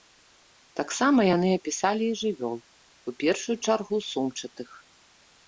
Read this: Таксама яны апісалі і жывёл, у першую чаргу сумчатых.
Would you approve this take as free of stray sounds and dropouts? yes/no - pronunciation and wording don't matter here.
yes